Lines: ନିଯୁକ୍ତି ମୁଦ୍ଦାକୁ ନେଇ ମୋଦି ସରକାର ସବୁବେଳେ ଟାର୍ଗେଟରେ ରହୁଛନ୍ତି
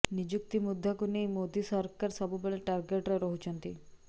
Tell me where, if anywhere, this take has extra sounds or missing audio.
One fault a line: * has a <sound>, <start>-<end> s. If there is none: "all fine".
all fine